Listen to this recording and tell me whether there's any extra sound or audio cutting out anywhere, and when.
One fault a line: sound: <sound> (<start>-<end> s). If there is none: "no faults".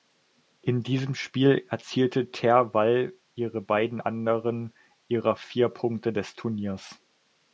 no faults